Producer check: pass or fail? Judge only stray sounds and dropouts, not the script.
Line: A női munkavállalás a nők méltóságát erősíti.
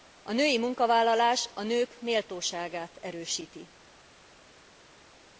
pass